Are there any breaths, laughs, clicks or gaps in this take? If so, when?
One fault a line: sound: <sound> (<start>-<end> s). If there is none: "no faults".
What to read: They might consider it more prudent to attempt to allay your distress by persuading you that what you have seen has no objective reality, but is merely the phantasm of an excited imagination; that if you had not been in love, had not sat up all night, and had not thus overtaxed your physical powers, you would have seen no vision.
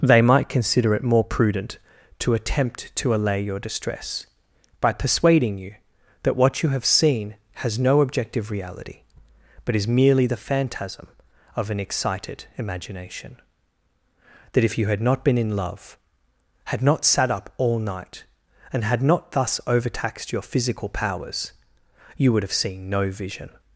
no faults